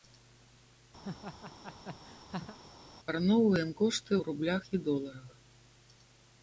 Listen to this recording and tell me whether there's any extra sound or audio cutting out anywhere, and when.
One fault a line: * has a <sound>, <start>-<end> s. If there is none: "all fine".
* has a laugh, 1.0-2.6 s